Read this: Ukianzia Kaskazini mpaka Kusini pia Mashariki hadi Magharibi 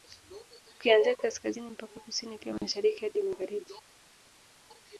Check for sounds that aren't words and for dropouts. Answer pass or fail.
pass